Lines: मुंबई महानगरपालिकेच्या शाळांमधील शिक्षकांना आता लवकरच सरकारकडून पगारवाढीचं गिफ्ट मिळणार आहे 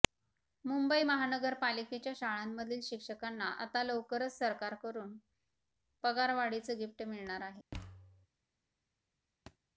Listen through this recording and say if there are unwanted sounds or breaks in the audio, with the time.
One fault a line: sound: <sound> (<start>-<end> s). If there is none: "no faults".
sound: thud (7.7-8.3 s)
sound: thud (9.5-9.6 s)